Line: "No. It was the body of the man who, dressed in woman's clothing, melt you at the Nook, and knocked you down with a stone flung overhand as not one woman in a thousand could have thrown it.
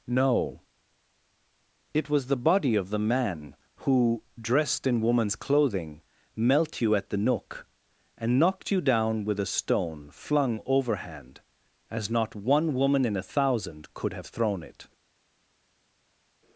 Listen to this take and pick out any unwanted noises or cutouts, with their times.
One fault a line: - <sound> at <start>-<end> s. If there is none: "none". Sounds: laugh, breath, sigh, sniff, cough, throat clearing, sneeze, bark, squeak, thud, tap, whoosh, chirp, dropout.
none